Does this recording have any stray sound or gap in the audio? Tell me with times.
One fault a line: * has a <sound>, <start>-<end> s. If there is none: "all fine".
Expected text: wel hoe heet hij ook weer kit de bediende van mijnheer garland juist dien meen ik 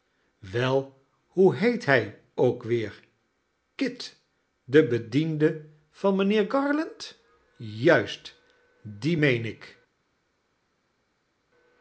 all fine